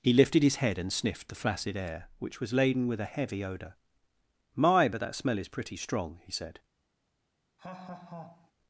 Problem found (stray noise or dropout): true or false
true